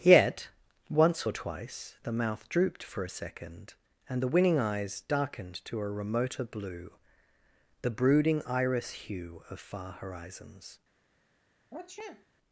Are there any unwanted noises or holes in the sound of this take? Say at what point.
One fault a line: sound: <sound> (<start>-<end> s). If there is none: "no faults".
sound: sniff (11.7-12.3 s)